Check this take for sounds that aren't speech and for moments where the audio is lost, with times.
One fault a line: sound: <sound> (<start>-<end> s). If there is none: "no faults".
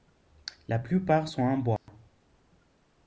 sound: dropout (1.8-1.9 s)